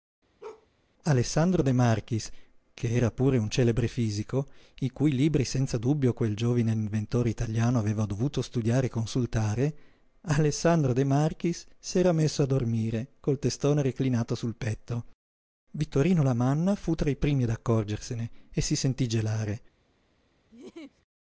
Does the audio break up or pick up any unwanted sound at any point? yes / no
yes